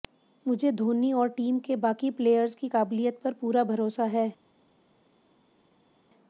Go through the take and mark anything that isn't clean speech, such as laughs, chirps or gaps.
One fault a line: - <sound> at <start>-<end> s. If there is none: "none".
none